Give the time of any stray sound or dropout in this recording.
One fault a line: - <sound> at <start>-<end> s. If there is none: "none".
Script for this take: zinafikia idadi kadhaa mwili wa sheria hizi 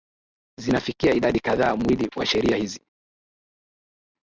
none